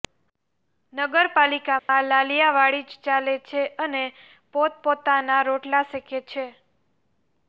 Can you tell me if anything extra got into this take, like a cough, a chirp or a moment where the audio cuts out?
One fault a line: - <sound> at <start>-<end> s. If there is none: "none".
- dropout at 1.8-1.9 s